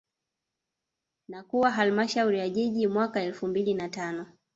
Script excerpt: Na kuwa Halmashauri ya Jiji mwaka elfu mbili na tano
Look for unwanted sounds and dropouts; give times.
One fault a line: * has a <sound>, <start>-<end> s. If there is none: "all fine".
all fine